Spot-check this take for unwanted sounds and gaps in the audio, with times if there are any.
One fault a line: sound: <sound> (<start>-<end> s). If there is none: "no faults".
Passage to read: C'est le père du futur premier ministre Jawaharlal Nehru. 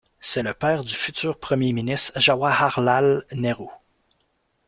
no faults